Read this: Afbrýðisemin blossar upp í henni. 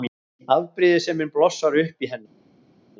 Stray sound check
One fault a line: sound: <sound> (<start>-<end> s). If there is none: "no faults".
no faults